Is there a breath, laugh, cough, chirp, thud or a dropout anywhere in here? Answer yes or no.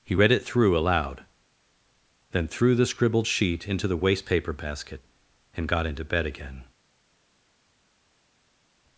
no